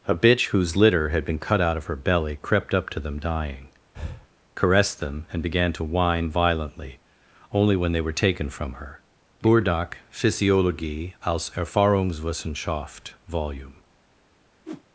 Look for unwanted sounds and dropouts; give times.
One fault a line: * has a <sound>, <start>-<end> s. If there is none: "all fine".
* has a breath, 3.9-4.3 s
* has a whoosh, 14.7-14.8 s